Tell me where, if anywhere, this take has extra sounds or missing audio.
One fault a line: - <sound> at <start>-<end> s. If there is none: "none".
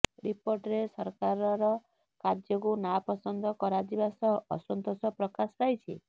none